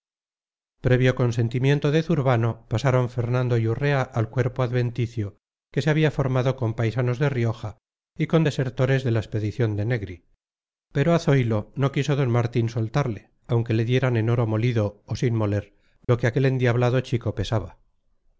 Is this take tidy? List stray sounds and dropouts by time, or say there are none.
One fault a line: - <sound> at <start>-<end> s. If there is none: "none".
- dropout at 16.0-16.1 s